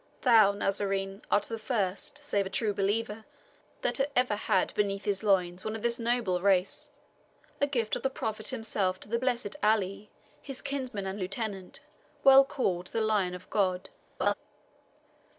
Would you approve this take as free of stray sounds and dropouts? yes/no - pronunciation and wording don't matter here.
no